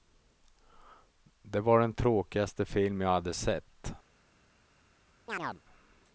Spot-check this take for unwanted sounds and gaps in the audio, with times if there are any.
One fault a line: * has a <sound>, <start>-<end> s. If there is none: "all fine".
* has a chirp, 5.3-5.6 s